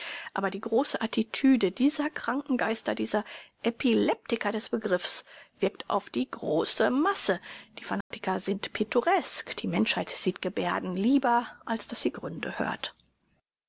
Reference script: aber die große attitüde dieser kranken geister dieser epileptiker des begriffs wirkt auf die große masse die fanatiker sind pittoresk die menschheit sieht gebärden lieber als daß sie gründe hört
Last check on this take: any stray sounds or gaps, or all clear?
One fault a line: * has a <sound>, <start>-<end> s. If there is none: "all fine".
* has a dropout, 8.0-8.1 s